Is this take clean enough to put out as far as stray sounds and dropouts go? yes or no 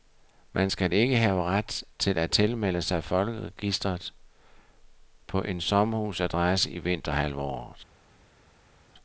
yes